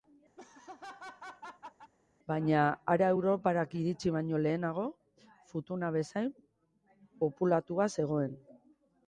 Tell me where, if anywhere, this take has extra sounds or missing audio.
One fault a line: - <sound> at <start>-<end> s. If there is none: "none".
- laugh at 0.4-1.9 s